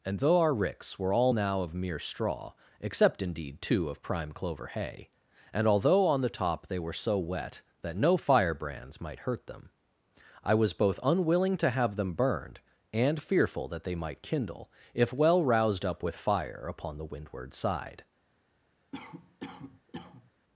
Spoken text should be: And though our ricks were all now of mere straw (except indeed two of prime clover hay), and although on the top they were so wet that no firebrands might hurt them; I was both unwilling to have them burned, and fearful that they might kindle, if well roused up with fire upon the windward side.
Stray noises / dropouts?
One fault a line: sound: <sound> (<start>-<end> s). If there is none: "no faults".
sound: cough (18.9-20.3 s)